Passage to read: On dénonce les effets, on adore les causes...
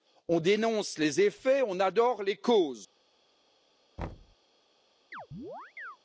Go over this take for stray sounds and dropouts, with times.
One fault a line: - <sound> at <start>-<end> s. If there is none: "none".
- thud at 4.0-4.4 s
- chirp at 5.1-6.0 s